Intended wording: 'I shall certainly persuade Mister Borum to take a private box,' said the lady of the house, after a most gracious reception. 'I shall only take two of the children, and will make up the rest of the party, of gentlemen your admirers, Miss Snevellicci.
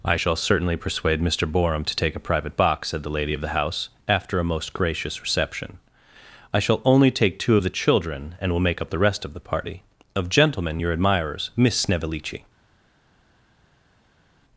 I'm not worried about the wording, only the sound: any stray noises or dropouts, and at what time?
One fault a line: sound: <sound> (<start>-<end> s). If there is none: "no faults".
no faults